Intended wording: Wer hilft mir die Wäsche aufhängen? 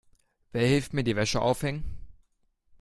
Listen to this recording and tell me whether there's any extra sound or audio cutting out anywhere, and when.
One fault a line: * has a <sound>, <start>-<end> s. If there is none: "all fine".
all fine